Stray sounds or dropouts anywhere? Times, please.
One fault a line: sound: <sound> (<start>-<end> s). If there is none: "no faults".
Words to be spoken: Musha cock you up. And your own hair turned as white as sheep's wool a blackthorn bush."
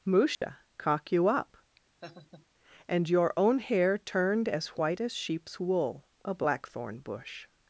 sound: dropout (0.3-0.4 s)
sound: laugh (2.0-2.5 s)